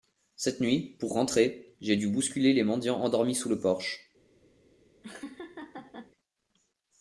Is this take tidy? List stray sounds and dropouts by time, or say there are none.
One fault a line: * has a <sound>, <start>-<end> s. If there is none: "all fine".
* has a laugh, 5.0-6.1 s